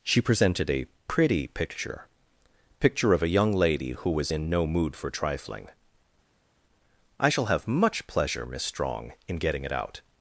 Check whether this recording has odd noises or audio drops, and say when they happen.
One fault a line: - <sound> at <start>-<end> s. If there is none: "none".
none